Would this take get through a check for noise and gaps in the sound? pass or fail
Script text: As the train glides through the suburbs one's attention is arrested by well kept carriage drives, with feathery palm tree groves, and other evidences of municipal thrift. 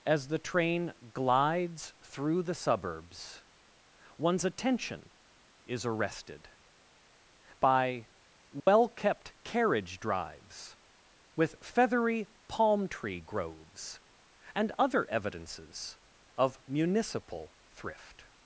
fail